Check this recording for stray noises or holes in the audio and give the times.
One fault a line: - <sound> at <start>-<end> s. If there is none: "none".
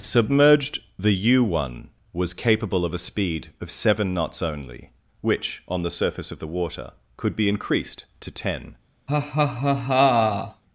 - laugh at 9.1-10.6 s